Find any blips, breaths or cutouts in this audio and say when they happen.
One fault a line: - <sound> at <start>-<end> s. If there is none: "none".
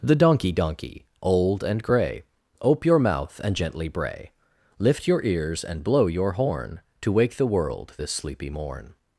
none